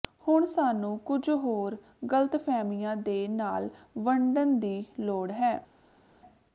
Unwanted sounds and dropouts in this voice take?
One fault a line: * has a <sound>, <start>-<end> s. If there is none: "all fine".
all fine